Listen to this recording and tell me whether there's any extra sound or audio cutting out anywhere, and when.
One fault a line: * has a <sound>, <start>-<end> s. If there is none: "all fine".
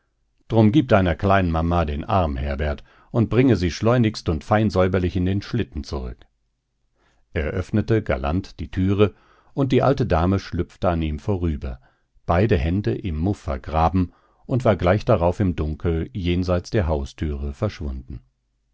all fine